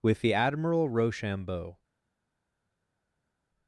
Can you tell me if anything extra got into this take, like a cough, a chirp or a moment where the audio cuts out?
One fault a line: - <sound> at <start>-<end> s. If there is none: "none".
none